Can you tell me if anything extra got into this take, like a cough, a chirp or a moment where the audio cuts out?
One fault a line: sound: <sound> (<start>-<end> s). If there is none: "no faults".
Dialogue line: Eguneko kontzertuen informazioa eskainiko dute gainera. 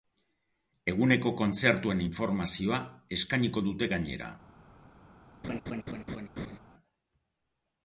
sound: laugh (5.4-6.6 s)